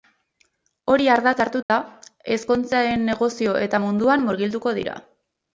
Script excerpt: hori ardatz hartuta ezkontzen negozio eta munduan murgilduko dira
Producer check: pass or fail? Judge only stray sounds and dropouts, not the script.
fail